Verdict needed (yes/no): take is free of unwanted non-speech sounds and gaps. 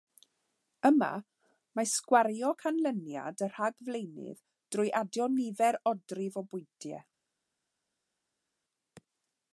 yes